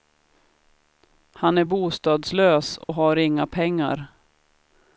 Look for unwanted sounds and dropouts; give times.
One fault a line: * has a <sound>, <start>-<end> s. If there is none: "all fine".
* has a dropout, 2.8-2.9 s